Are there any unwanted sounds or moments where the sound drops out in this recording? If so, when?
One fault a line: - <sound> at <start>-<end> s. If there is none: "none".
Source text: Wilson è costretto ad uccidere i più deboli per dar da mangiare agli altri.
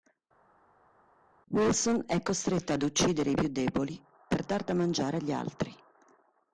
none